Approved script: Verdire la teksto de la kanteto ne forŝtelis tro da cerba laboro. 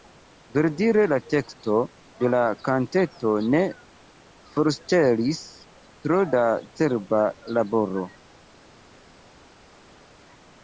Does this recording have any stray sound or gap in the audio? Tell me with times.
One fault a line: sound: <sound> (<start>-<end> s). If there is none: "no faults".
no faults